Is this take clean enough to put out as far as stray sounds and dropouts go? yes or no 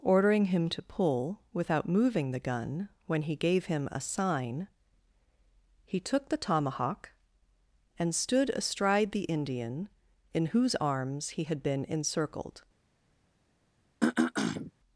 no